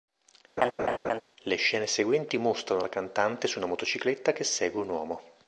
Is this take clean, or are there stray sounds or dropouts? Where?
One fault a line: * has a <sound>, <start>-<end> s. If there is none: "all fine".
* has a laugh, 0.6-1.2 s